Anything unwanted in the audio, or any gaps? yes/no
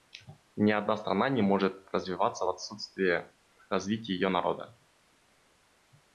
no